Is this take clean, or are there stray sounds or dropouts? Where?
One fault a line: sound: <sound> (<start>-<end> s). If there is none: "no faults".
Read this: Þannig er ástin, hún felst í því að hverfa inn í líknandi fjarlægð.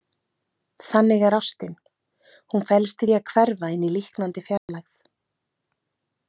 sound: dropout (4.6-4.7 s)